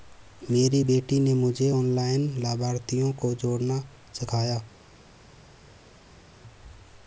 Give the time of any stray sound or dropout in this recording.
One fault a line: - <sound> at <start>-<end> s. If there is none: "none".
none